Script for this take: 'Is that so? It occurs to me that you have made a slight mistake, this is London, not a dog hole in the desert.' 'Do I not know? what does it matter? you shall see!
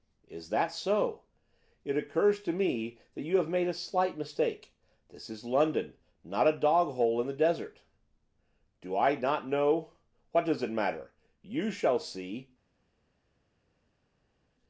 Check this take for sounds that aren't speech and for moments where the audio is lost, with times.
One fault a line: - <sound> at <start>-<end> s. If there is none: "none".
none